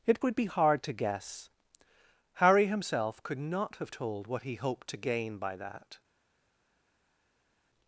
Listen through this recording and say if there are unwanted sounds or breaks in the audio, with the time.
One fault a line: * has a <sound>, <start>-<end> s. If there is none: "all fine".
all fine